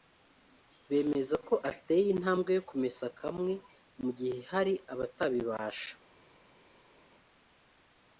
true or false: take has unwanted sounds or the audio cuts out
false